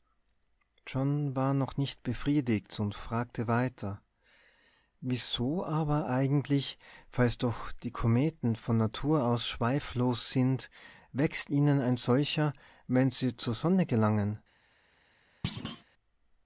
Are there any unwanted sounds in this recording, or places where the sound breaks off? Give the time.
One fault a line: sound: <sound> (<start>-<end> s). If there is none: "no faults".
sound: thud (15.4-15.8 s)